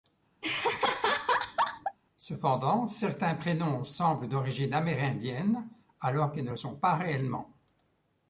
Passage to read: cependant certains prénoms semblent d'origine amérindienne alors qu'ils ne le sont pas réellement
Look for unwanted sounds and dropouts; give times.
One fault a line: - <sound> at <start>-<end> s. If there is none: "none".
- laugh at 0.4-2.0 s